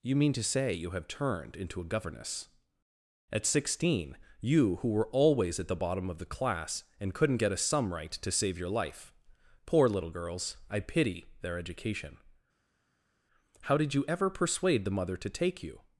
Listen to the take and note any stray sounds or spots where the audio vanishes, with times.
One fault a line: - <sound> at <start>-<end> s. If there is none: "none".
none